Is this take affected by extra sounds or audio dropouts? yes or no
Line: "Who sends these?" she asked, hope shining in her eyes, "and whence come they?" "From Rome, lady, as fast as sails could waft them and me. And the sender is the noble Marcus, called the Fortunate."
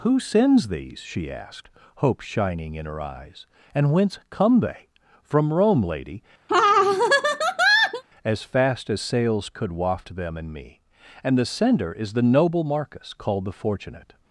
yes